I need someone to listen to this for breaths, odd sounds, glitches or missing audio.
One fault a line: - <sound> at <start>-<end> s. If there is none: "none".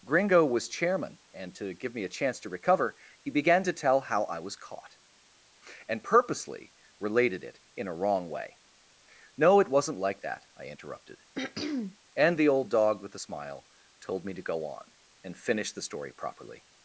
- throat clearing at 11.3-12.0 s